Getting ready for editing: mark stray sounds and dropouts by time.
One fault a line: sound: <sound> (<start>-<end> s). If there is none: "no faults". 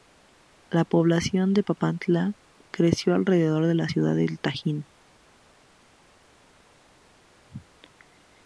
no faults